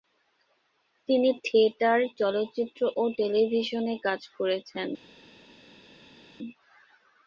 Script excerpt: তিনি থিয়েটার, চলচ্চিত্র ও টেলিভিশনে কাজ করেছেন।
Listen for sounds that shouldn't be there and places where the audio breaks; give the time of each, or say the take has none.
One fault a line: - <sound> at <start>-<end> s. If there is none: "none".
none